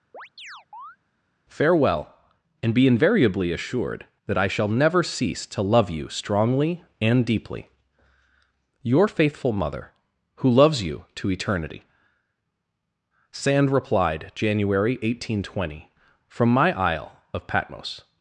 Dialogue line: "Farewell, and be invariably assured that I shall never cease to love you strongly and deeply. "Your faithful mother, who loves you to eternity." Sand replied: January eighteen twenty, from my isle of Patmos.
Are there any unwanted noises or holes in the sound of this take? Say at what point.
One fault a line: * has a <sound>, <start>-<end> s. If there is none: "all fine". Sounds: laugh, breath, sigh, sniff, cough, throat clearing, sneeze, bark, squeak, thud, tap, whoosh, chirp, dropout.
* has a chirp, 0.1-1.0 s